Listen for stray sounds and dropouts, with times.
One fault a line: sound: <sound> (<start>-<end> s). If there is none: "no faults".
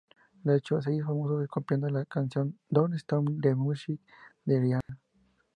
sound: dropout (4.8-4.9 s)